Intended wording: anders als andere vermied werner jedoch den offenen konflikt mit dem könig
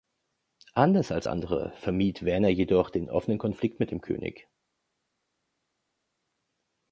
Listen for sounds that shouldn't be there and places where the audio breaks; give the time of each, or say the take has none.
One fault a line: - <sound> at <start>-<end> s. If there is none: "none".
none